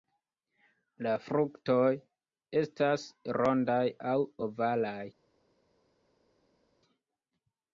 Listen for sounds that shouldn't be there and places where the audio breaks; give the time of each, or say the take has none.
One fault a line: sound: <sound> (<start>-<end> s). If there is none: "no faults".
no faults